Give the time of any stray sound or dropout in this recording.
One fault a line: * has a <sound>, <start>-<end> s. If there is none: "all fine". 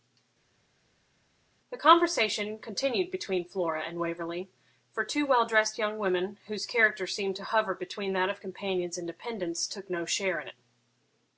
all fine